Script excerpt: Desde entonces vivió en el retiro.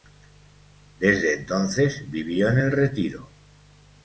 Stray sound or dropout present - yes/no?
no